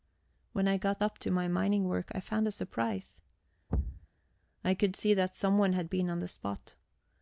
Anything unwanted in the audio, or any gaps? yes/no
yes